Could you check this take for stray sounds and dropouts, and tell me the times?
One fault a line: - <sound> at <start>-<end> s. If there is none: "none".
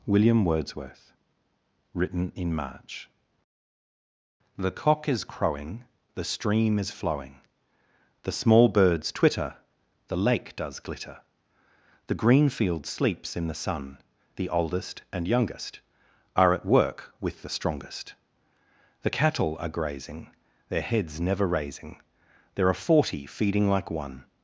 none